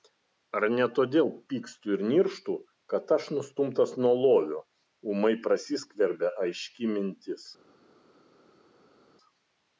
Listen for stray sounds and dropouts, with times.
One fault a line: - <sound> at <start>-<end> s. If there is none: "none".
none